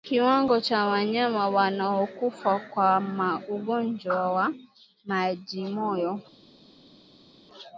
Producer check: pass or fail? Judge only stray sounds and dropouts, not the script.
pass